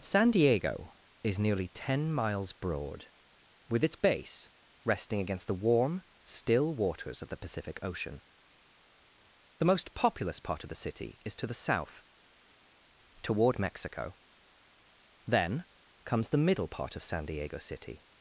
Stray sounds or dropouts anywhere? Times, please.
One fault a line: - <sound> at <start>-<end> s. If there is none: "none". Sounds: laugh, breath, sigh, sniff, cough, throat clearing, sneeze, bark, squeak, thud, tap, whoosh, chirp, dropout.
none